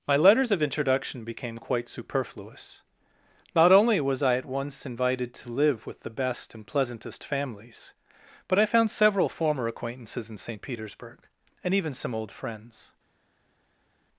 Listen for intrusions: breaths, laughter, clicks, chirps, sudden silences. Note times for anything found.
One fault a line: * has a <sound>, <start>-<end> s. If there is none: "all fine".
all fine